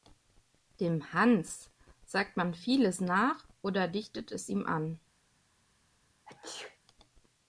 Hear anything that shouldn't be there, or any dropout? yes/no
yes